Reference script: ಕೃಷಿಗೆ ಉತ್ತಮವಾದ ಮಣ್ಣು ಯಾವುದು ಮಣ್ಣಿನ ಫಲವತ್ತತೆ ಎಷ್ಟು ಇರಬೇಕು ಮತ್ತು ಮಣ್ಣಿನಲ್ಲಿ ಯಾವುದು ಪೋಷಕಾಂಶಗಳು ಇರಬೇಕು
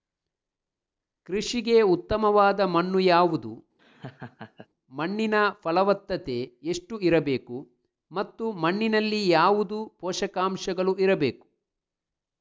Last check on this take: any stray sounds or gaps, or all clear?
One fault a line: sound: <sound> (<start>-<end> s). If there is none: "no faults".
sound: laugh (3.8-4.7 s)